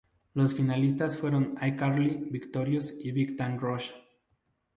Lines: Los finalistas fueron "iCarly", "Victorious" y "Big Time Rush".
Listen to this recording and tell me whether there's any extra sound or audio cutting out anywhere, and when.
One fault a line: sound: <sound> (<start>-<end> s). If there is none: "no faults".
no faults